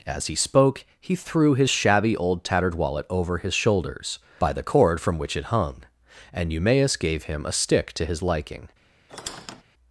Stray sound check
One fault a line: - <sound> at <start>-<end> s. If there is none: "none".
- squeak at 9.1-9.6 s